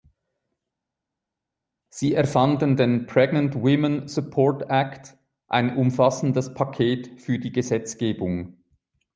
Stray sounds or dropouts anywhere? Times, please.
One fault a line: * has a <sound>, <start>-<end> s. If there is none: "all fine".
all fine